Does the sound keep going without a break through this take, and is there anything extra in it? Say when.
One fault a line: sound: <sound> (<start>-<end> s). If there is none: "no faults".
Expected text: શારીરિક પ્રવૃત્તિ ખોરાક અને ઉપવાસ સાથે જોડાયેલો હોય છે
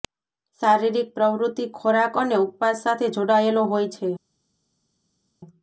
no faults